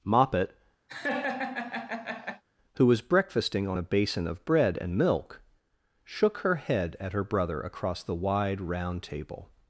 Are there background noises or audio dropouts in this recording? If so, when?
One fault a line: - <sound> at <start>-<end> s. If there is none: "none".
- laugh at 0.9-2.4 s